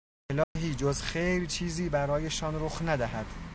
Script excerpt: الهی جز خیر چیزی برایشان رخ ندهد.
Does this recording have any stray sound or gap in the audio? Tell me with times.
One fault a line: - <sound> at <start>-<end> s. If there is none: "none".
- dropout at 0.4-0.6 s